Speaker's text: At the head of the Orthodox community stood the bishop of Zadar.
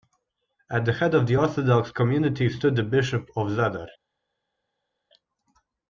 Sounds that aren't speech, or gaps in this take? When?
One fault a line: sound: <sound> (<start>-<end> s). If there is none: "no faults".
no faults